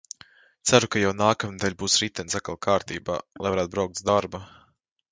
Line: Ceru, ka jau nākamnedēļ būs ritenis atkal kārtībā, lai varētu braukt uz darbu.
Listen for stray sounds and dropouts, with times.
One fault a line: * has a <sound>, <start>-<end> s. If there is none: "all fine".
all fine